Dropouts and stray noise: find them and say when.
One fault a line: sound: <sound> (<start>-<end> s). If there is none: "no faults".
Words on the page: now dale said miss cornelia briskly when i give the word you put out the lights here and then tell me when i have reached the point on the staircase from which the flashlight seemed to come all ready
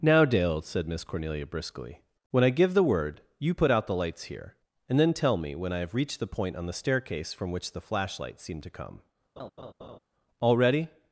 sound: laugh (9.4-10.0 s)